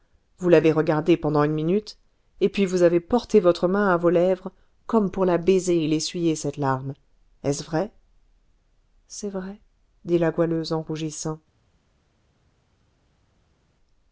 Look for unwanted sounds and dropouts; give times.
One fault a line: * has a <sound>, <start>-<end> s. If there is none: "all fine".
all fine